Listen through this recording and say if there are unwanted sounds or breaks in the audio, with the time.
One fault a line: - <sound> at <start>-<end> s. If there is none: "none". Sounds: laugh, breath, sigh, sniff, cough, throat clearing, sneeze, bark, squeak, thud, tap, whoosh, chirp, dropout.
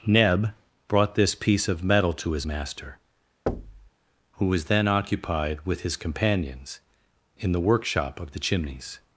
- thud at 3.5-3.9 s